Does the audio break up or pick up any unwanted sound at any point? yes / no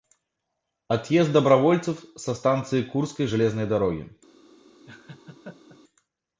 yes